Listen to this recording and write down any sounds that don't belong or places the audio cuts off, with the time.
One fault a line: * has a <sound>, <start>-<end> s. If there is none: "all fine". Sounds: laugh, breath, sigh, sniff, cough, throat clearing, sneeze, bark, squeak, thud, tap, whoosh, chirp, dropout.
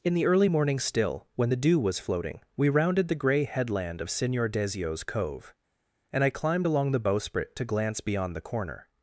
all fine